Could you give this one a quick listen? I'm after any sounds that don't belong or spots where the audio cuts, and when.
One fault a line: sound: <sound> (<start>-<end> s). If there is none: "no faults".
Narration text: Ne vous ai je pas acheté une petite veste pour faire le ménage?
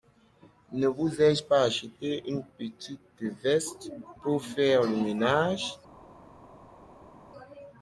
no faults